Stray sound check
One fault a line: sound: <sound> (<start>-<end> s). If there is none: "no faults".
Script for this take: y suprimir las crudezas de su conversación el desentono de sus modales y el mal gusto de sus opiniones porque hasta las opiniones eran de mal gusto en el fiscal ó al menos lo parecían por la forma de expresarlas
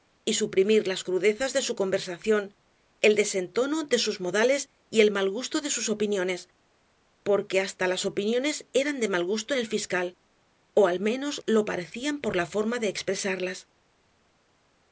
no faults